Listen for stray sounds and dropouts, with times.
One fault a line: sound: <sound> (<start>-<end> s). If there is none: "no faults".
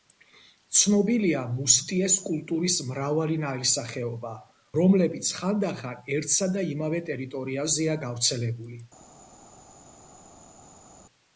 no faults